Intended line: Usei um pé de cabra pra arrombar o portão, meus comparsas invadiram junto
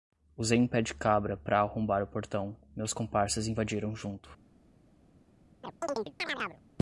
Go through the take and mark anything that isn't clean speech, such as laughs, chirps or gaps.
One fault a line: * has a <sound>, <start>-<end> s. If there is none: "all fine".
* has a chirp, 5.6-6.6 s